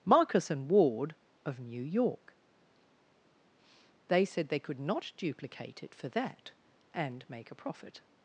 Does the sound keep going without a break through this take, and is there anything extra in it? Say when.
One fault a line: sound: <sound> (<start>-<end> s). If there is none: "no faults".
no faults